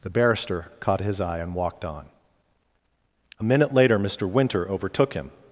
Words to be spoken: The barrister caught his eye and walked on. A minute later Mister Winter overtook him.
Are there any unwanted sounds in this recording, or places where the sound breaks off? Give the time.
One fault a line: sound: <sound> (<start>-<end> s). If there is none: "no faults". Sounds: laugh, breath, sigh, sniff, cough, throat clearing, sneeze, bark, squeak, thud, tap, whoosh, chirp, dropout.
no faults